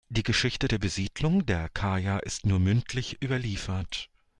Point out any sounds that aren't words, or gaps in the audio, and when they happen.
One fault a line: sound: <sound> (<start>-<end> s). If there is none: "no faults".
no faults